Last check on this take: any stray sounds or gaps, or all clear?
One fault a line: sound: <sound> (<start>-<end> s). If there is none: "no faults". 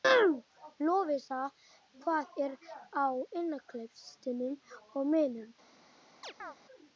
sound: chirp (6.2-6.6 s)